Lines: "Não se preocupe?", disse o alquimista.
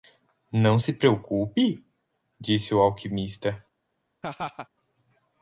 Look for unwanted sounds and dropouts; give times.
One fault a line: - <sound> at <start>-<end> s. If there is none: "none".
- laugh at 4.2-4.7 s